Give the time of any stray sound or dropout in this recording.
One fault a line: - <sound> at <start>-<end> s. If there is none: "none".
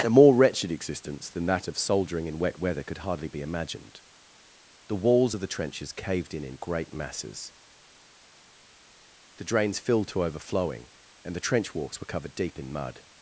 none